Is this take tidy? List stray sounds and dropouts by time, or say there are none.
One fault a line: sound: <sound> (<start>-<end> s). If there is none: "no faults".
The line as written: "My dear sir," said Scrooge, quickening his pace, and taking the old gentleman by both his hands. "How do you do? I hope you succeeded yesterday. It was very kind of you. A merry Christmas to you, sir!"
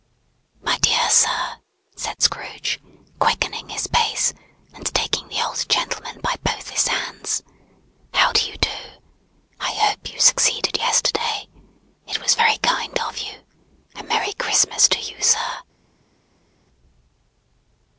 no faults